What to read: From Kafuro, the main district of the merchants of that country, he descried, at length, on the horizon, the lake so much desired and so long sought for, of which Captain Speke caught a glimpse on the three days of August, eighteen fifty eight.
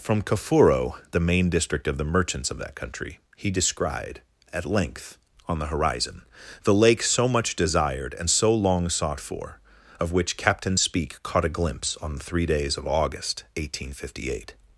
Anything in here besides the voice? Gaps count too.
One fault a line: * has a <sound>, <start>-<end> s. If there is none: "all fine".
all fine